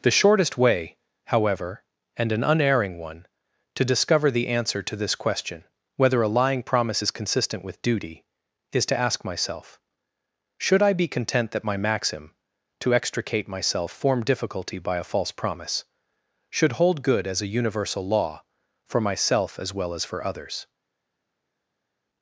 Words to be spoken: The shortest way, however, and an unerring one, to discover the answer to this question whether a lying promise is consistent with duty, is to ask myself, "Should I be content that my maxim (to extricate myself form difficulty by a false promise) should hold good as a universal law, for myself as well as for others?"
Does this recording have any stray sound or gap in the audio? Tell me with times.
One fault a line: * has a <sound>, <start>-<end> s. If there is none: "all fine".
all fine